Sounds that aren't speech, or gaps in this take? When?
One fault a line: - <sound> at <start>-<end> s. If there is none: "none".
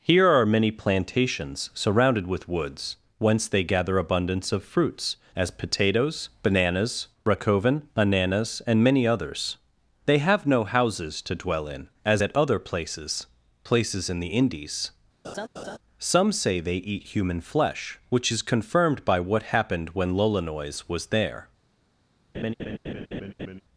- laugh at 15.2-15.8 s
- laugh at 22.3-23.6 s